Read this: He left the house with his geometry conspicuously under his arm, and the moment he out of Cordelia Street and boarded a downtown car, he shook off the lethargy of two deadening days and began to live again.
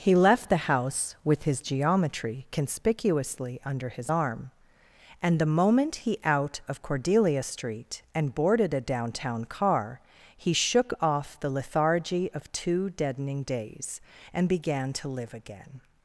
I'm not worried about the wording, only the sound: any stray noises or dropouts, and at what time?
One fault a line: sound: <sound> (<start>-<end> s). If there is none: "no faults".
no faults